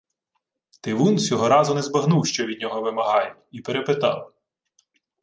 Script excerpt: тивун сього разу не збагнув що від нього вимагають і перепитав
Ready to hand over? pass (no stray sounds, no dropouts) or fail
pass